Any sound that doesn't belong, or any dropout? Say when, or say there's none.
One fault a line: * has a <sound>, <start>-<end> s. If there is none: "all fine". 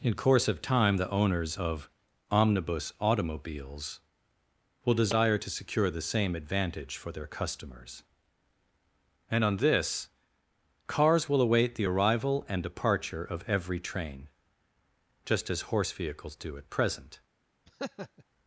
* has a laugh, 17.7-18.2 s